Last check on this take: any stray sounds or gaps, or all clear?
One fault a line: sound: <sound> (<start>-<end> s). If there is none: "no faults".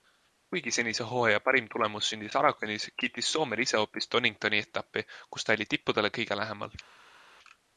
no faults